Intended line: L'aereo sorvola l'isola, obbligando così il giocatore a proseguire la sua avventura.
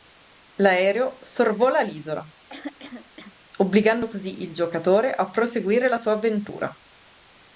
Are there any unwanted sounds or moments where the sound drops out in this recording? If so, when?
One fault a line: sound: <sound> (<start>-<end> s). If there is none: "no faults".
sound: throat clearing (2.5-3.3 s)